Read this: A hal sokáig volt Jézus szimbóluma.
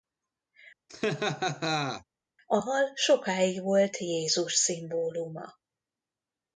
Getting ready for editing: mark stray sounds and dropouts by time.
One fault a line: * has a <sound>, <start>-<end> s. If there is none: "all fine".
* has a laugh, 0.9-2.0 s